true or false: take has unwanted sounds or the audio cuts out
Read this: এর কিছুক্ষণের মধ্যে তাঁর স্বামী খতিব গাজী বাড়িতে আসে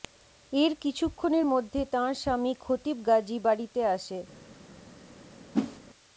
true